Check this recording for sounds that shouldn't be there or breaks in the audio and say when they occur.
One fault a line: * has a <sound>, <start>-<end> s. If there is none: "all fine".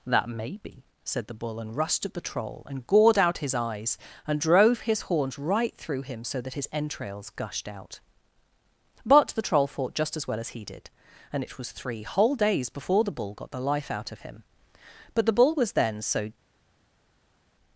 all fine